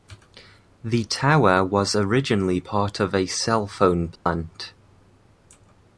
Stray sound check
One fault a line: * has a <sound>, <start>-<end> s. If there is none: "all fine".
* has a dropout, 4.2-4.3 s